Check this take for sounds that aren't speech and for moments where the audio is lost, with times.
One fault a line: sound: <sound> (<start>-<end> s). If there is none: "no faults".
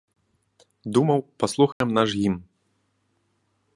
sound: dropout (1.7-1.8 s)